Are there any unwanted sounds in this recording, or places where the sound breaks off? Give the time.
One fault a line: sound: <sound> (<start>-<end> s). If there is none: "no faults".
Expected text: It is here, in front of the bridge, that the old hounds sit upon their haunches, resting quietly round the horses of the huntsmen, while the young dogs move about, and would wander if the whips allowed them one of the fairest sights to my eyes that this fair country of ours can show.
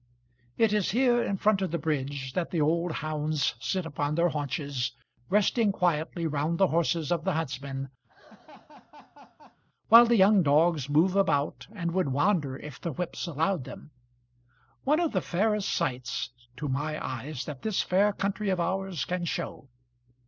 sound: laugh (8.1-9.6 s)